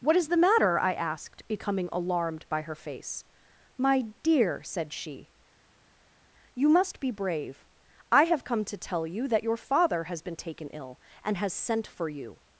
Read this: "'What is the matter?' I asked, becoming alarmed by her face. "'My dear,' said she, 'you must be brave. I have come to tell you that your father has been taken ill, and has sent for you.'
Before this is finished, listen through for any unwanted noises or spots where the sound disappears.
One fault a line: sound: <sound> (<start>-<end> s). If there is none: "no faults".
no faults